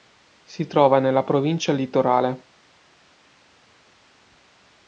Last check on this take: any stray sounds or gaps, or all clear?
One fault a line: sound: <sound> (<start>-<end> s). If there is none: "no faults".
no faults